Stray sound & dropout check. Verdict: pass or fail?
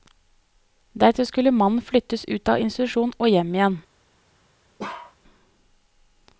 fail